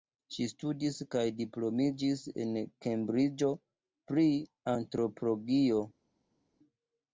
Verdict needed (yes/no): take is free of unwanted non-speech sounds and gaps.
yes